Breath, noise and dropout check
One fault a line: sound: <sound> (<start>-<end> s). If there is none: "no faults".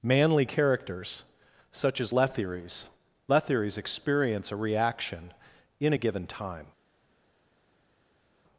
no faults